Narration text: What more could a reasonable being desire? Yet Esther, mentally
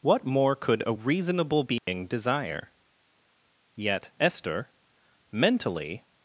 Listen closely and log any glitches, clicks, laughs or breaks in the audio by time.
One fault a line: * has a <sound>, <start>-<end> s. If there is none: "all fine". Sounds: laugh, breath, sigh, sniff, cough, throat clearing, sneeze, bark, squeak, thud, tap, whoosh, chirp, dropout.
* has a dropout, 1.8-1.9 s